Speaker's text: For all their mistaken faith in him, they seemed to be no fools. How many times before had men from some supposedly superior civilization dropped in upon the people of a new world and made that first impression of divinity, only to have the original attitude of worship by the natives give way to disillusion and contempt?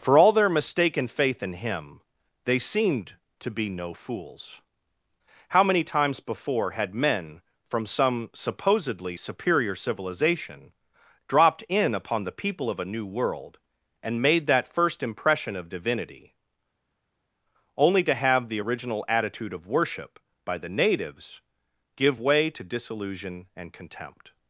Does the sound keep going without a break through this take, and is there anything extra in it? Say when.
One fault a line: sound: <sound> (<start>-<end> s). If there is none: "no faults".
no faults